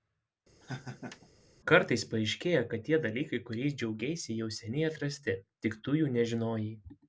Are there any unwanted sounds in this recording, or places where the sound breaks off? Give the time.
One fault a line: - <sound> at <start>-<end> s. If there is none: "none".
- laugh at 0.6-1.3 s